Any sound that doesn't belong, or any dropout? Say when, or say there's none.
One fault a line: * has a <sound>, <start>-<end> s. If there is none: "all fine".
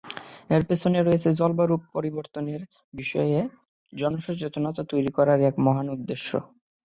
all fine